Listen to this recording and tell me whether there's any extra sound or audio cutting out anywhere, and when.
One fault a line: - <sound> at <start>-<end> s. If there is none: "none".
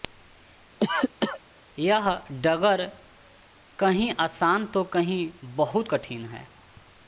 - cough at 0.8-1.4 s